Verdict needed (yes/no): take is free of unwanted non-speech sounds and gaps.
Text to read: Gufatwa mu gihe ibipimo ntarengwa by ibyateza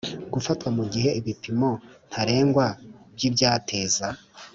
yes